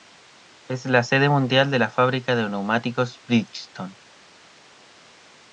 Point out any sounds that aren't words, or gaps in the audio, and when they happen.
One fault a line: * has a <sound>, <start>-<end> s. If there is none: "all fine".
all fine